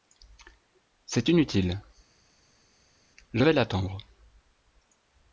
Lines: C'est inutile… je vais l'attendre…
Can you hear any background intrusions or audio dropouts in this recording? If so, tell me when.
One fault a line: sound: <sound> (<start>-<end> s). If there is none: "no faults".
no faults